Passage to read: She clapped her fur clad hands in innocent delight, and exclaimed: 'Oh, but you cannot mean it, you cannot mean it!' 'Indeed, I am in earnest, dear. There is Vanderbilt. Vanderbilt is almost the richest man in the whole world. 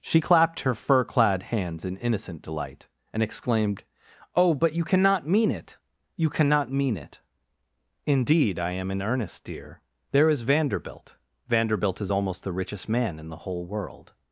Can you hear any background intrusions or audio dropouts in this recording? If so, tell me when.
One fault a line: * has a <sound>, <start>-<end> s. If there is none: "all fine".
all fine